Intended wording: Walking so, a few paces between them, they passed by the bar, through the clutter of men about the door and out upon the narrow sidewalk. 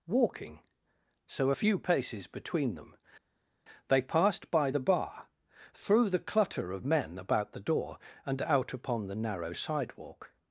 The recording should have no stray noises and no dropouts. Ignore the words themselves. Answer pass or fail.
pass